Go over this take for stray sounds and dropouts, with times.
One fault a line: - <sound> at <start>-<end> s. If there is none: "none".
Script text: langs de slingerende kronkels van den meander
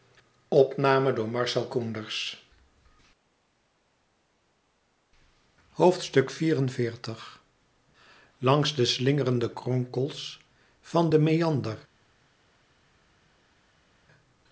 none